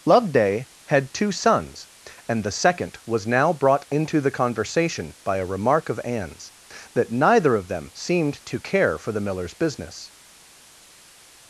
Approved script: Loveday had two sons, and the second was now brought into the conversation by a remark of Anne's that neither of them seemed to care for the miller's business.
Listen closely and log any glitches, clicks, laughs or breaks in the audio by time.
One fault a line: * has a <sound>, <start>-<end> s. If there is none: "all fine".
all fine